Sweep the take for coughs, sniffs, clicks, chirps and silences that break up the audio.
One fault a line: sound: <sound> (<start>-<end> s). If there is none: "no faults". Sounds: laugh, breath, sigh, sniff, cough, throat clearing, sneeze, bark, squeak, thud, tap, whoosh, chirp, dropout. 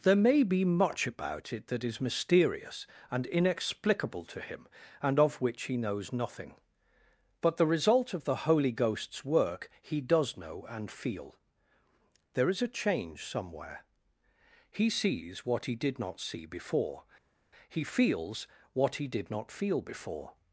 no faults